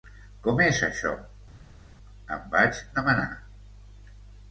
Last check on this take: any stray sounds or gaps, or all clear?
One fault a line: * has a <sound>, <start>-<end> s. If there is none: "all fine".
all fine